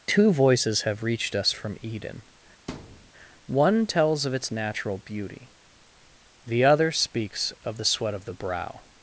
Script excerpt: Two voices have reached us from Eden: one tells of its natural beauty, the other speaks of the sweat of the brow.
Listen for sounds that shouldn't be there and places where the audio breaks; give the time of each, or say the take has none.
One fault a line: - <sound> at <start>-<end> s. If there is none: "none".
- thud at 2.7-3.1 s